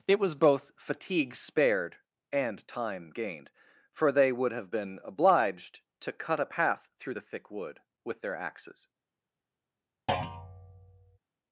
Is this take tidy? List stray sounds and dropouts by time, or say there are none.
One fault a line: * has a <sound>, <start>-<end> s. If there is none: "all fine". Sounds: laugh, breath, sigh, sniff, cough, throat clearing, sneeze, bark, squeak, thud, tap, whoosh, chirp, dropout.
* has a thud, 10.1-11.2 s